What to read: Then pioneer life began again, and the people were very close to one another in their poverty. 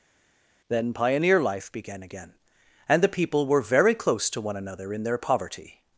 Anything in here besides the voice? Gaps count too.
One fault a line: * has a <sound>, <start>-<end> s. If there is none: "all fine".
all fine